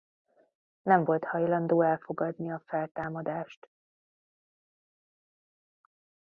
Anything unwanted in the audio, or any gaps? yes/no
no